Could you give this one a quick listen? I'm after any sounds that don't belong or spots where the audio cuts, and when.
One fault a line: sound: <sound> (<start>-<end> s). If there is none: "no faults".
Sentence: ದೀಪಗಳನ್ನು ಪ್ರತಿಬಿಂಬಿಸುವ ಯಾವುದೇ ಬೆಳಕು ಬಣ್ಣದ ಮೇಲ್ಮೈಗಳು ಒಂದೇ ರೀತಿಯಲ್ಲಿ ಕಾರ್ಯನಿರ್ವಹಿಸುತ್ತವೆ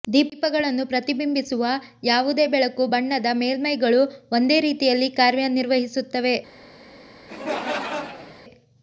sound: laugh (7.3-8.4 s)